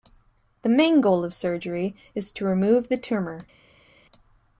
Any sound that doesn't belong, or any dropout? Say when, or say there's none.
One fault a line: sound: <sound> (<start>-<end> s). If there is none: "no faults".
no faults